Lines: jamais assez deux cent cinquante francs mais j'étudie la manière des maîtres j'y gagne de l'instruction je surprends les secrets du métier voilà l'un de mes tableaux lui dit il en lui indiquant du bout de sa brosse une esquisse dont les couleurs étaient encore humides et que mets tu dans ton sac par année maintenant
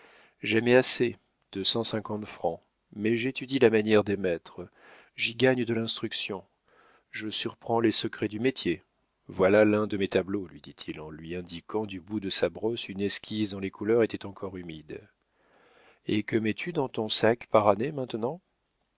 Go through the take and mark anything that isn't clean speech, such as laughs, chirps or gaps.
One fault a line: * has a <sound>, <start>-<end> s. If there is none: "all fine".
all fine